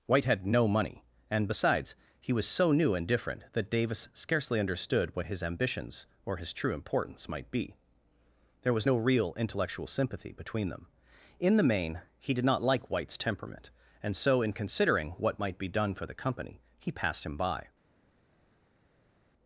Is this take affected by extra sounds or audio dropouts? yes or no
no